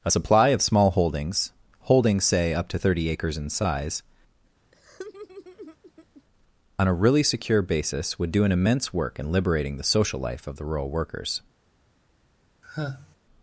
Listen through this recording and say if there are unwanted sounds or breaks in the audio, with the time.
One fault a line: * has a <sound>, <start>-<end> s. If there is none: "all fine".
* has a laugh, 4.7-6.2 s
* has a sigh, 12.6-13.2 s